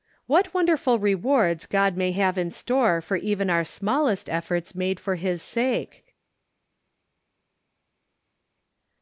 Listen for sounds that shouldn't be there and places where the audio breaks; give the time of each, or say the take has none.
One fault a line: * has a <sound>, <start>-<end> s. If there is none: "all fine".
all fine